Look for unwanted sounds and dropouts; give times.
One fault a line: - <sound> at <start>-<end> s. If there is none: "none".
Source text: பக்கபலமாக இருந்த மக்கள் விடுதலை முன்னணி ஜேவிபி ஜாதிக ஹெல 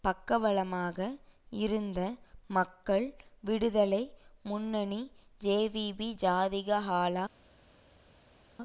none